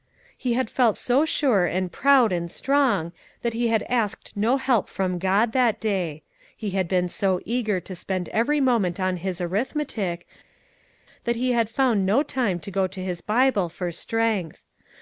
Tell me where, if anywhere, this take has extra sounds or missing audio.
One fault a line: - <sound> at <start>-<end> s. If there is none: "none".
none